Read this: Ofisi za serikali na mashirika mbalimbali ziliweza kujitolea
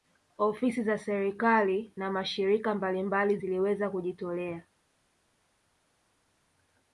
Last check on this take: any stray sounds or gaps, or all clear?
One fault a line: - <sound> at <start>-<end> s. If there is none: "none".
none